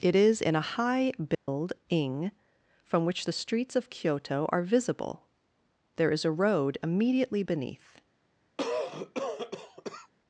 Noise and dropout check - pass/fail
fail